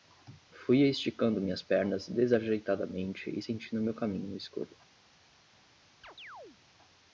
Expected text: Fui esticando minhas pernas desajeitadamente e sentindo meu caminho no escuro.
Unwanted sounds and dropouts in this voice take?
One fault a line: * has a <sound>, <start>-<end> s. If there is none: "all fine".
* has a chirp, 6.0-6.6 s